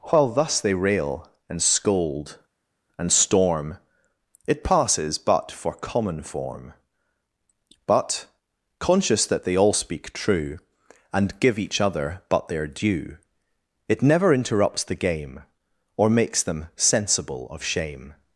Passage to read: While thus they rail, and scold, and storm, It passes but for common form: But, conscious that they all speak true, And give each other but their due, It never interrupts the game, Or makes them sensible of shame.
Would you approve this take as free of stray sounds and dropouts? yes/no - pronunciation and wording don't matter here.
yes